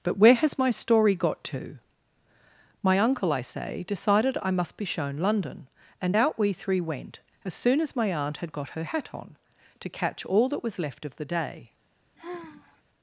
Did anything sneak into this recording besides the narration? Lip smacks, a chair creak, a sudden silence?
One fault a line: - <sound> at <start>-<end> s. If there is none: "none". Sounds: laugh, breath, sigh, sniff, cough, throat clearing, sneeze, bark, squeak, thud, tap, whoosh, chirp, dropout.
- sigh at 12.1-12.8 s